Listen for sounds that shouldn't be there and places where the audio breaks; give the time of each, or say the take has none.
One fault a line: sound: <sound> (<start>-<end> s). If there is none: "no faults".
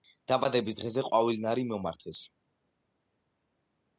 no faults